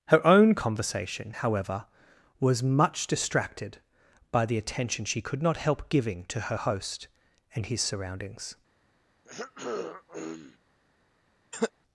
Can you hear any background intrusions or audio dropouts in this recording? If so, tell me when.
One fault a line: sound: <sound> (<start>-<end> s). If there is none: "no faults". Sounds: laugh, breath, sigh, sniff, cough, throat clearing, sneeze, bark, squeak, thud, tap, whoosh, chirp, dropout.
sound: throat clearing (9.2-10.6 s)
sound: cough (11.5-11.7 s)